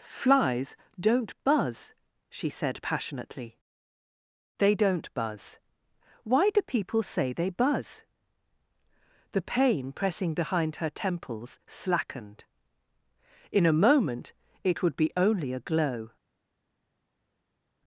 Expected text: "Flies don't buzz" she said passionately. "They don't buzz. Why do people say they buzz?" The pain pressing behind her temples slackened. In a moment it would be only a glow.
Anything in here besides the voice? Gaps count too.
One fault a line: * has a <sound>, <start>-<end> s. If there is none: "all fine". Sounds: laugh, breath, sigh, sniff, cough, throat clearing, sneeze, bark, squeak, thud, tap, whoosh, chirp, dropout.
all fine